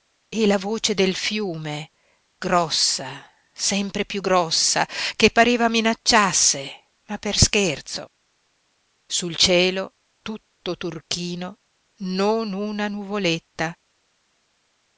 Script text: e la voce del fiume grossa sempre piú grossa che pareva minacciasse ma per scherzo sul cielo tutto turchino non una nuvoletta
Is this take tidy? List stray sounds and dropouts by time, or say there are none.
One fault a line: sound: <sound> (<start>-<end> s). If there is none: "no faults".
no faults